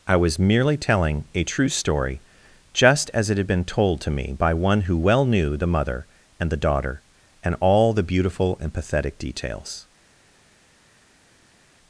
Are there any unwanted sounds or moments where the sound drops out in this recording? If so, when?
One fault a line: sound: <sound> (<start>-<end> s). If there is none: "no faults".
no faults